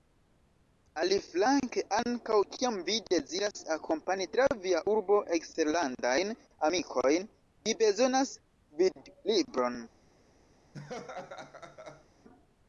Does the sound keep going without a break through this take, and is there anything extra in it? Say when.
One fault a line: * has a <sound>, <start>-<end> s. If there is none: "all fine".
* has a laugh, 10.7-12.1 s